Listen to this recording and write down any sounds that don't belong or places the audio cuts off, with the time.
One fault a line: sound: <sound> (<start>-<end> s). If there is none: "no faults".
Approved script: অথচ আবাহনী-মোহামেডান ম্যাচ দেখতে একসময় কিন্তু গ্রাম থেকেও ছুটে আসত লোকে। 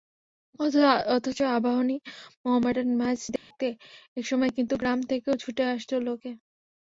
sound: dropout (3.4-3.5 s)